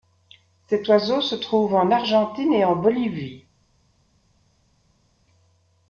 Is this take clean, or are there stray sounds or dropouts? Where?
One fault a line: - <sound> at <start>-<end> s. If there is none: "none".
none